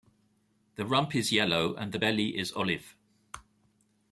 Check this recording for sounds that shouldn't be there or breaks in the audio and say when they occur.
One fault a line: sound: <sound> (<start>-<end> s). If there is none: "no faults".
no faults